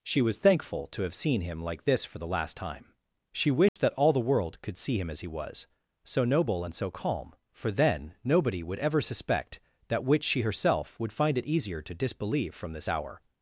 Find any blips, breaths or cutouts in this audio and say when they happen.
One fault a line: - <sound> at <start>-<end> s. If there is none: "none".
- dropout at 3.7-3.8 s